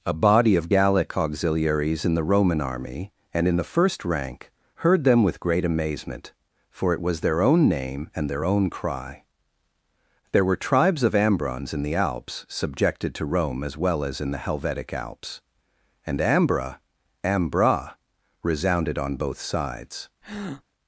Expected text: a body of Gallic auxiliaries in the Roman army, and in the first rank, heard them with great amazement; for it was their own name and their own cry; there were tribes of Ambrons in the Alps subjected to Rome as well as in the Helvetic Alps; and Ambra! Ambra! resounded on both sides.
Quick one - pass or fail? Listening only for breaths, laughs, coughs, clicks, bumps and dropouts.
fail